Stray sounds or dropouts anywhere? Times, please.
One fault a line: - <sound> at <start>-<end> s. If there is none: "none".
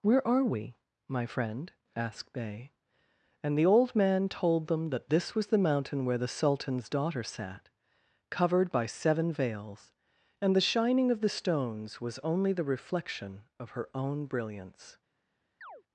- chirp at 15.6-15.8 s